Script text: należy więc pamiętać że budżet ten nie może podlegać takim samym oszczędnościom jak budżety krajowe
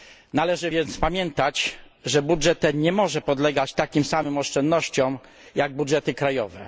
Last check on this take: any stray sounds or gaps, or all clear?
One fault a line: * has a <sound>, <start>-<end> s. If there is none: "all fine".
all fine